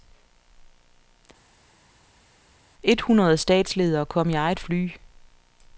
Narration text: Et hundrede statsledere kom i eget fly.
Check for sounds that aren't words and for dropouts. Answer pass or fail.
pass